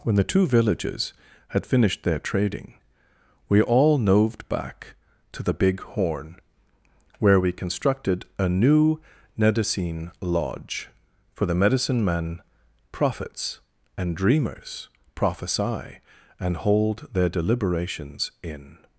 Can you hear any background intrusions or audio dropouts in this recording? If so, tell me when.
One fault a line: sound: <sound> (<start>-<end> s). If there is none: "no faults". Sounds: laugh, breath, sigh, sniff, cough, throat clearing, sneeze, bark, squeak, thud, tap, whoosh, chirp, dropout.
no faults